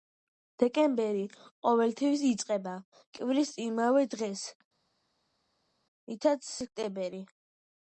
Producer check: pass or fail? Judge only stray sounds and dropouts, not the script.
pass